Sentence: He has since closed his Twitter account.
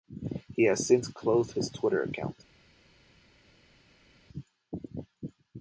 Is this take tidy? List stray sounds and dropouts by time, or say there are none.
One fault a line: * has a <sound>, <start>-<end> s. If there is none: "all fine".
all fine